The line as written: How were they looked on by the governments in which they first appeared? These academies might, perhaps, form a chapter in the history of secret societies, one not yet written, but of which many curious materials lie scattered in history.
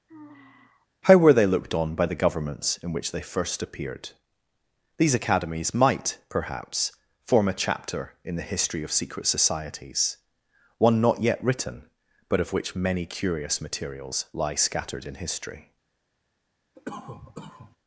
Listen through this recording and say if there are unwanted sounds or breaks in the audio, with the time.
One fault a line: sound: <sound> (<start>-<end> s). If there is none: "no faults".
sound: sigh (0.1-0.9 s)
sound: cough (16.8-17.8 s)